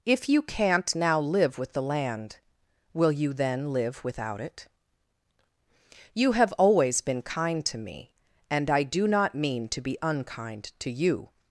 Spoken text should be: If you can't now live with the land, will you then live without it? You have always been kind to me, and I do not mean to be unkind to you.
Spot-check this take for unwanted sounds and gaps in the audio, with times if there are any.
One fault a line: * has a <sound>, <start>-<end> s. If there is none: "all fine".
all fine